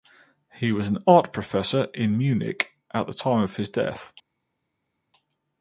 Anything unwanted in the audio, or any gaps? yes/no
no